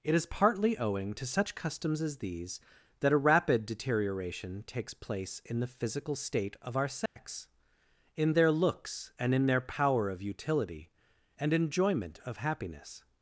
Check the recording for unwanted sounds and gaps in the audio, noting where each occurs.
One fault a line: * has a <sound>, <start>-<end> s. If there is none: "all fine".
* has a dropout, 7.1-7.2 s